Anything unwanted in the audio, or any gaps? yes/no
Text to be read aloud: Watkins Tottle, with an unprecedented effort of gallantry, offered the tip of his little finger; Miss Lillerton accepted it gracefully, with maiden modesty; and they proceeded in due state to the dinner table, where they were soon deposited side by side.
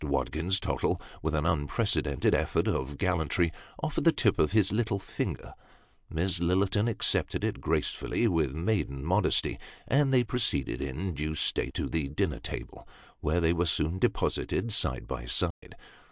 yes